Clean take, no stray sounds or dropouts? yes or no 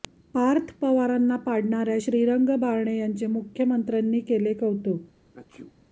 no